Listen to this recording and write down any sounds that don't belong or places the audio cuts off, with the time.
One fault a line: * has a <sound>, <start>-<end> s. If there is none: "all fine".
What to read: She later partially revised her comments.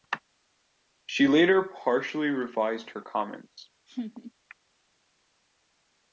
* has a laugh, 3.9-4.3 s